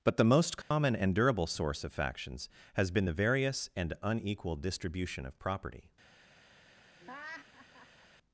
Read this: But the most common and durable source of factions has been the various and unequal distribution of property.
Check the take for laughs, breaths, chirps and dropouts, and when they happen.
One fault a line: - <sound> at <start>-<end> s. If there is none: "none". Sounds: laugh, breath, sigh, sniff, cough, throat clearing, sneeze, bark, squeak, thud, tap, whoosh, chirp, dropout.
- dropout at 0.6-0.7 s
- laugh at 7.0-8.1 s